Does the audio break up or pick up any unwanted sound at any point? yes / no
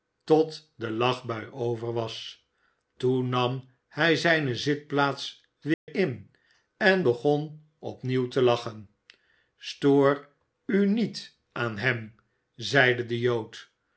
yes